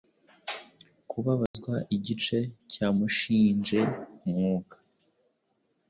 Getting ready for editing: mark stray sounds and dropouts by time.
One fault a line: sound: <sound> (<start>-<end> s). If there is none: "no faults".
sound: dropout (1.5-1.5 s)